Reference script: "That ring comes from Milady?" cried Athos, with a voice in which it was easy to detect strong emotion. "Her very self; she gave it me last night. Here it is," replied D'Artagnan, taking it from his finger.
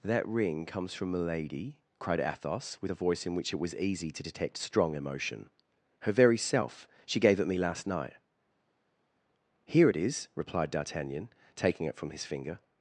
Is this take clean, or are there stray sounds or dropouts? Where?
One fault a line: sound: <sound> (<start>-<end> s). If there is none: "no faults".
no faults